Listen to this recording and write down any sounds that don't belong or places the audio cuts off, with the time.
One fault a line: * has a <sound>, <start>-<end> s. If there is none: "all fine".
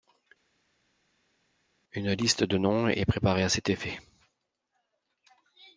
all fine